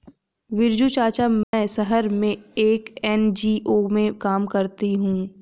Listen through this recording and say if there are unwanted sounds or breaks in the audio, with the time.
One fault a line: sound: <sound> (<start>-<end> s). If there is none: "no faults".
sound: dropout (1.4-1.5 s)